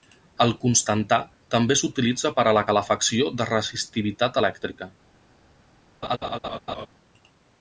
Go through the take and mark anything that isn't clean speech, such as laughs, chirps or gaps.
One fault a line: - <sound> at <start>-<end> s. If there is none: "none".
- laugh at 6.0-6.9 s